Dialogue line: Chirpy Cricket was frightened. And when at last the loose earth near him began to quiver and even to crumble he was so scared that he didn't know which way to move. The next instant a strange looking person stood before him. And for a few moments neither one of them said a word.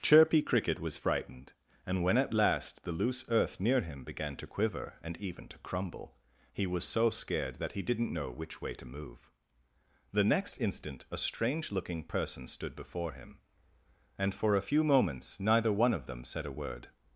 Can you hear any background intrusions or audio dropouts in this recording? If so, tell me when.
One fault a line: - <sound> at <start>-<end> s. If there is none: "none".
none